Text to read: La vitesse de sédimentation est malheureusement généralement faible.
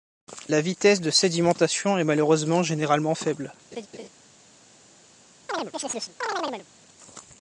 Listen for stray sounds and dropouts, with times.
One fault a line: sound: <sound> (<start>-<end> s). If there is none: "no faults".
sound: laugh (3.7-4.1 s)
sound: chirp (5.5-6.7 s)